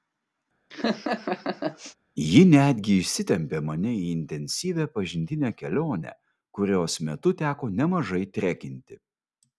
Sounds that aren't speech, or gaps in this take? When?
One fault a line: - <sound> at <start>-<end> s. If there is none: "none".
- laugh at 0.7-2.0 s